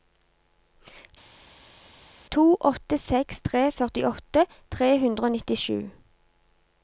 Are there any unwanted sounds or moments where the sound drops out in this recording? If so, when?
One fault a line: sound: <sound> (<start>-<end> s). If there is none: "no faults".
no faults